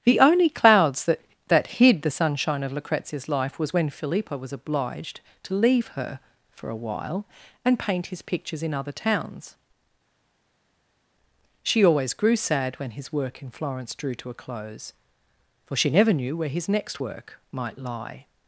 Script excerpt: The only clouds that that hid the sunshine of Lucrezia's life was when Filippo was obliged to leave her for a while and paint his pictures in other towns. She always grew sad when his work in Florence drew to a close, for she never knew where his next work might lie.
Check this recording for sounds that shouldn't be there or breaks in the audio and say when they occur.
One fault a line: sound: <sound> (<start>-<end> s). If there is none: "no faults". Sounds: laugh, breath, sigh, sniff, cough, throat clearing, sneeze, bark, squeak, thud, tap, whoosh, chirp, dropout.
no faults